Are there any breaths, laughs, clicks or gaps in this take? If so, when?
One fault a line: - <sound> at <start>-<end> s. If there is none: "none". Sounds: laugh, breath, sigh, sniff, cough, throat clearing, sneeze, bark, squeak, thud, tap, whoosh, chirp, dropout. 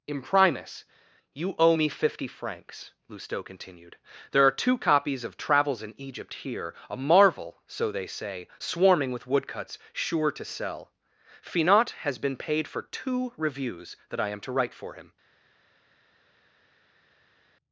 none